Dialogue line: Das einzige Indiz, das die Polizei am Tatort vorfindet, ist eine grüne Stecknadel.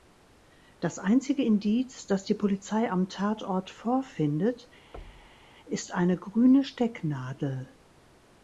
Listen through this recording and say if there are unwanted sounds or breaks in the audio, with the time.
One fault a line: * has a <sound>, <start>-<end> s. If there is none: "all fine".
* has a thud, 4.9-5.5 s